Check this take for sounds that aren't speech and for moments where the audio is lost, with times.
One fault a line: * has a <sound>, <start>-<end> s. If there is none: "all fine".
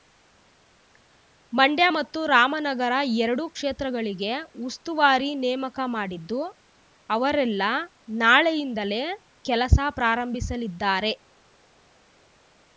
all fine